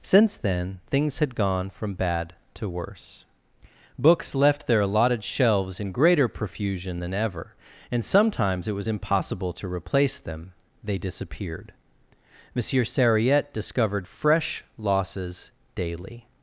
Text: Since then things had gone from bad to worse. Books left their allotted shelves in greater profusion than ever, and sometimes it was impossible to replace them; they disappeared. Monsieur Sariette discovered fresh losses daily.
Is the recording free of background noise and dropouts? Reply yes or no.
yes